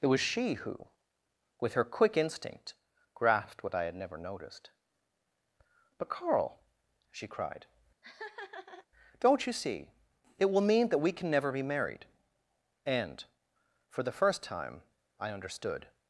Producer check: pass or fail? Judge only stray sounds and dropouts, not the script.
fail